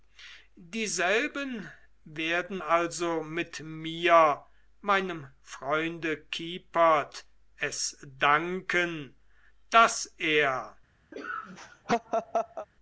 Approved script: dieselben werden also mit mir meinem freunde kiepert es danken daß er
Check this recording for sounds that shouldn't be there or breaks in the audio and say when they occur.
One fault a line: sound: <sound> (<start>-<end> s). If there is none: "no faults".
sound: laugh (11.1-12.7 s)